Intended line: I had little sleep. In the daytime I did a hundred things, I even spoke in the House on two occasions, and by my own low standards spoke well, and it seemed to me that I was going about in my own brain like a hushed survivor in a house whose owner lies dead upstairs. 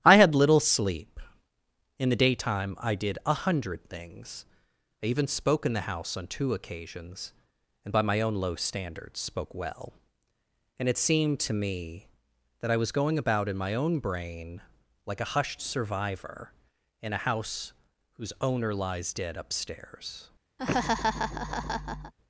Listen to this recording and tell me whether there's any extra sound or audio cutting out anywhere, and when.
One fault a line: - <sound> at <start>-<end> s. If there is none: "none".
- laugh at 20.6-22.1 s